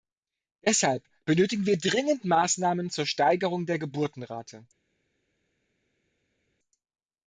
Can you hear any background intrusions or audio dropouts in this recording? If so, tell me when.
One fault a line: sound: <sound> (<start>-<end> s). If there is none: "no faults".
no faults